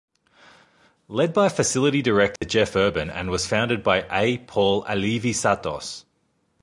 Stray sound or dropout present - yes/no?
yes